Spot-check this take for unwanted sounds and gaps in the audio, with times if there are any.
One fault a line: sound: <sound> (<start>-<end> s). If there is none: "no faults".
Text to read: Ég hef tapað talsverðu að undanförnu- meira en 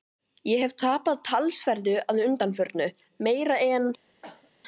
sound: cough (4.2-4.5 s)